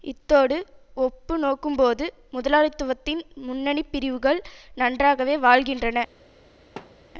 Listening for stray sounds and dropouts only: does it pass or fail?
fail